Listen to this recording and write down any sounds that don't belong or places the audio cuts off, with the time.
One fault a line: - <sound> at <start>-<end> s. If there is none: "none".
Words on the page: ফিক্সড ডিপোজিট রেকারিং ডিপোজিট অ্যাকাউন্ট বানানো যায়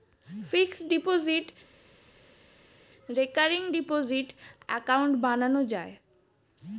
none